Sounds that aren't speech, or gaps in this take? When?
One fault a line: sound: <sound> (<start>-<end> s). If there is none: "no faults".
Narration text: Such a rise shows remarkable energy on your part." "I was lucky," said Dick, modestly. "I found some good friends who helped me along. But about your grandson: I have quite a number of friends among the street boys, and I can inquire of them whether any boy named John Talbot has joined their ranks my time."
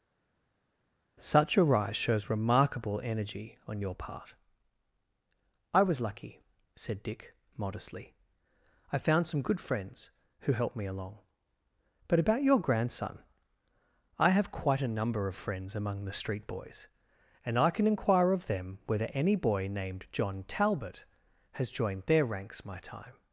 no faults